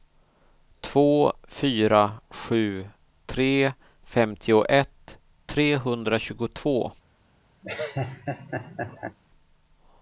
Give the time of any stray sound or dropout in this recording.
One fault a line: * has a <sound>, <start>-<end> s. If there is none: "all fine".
* has a laugh, 7.6-9.2 s